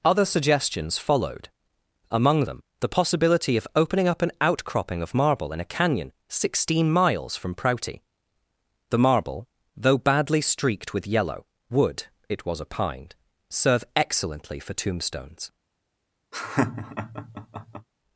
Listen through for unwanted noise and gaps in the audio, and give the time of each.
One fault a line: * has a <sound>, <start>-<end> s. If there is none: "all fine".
* has a laugh, 16.3-17.9 s